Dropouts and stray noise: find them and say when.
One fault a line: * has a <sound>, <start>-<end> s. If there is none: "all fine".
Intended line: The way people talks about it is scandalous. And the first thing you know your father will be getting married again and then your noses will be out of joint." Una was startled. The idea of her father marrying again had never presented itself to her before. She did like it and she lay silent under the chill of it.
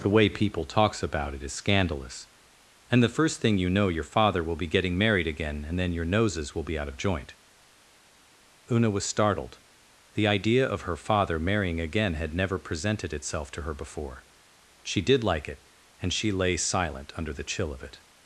all fine